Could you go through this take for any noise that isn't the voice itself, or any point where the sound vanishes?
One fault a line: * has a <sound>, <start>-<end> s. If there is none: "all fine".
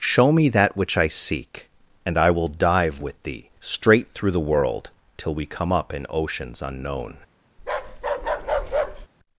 * has a bark, 7.6-9.1 s